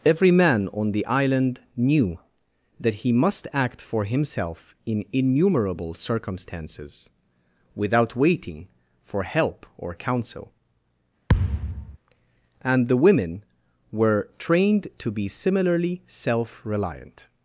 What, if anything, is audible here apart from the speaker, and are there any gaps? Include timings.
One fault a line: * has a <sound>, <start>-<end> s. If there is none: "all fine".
* has a thud, 11.3-12.0 s